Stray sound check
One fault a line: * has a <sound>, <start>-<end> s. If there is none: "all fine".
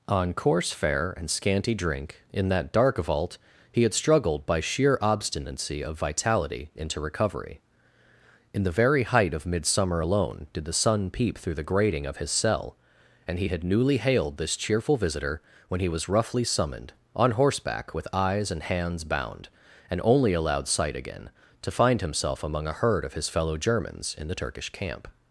all fine